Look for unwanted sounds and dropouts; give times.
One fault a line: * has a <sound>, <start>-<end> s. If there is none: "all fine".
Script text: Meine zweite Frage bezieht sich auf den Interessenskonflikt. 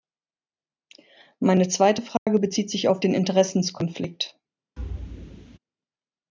* has a dropout, 2.2-2.3 s
* has a thud, 4.8-5.6 s